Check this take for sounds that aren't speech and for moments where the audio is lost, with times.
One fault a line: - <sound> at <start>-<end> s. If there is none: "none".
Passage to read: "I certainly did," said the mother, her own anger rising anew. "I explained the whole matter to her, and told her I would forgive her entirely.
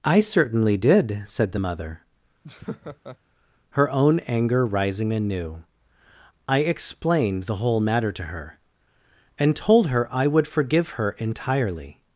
- laugh at 2.4-3.2 s